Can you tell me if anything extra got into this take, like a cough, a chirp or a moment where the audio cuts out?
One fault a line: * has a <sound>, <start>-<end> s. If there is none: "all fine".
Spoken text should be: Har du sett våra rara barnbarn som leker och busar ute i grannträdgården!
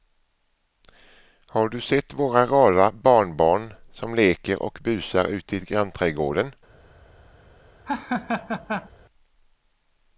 * has a laugh, 7.8-8.9 s